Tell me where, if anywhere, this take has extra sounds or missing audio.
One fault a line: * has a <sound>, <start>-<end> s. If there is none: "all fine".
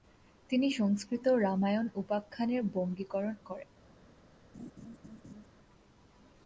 * has a laugh, 4.5-5.5 s